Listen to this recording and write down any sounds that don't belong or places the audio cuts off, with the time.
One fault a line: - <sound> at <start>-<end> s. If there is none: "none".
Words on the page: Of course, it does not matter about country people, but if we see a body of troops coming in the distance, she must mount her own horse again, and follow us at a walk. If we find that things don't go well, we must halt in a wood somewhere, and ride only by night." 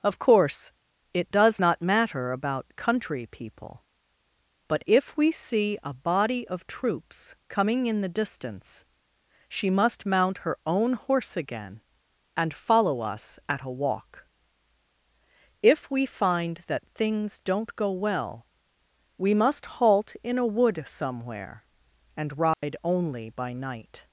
- dropout at 22.5-22.6 s